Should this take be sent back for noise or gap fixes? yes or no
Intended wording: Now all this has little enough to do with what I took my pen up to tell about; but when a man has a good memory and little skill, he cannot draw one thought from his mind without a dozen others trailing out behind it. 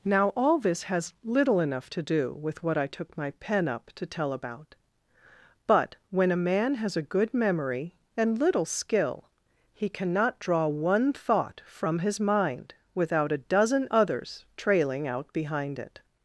no